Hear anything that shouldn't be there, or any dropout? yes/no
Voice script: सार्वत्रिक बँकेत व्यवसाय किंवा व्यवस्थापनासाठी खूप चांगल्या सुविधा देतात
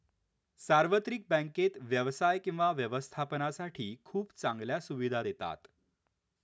no